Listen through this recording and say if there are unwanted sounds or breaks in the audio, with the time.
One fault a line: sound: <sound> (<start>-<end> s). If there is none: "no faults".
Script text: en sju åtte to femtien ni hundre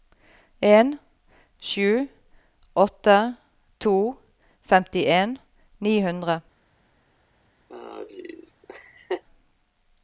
sound: laugh (7.7-9.2 s)